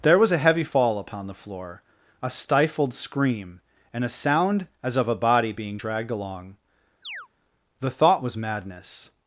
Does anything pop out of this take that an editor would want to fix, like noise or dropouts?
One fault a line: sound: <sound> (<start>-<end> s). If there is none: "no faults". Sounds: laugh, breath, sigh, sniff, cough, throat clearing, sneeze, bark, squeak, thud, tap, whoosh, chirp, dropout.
sound: chirp (7.0-7.3 s)